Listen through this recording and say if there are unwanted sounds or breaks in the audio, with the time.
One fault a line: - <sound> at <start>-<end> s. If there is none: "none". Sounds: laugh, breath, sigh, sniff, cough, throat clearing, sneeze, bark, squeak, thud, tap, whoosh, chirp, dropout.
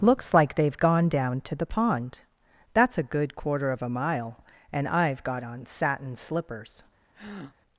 - breath at 7.1-7.6 s